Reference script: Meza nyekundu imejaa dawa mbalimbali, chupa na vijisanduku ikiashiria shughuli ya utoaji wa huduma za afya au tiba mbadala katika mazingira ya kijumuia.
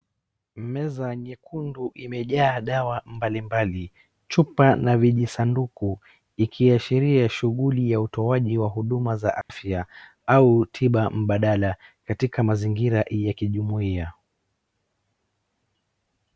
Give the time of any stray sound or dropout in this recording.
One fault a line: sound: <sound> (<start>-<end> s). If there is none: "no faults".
sound: dropout (9.4-9.5 s)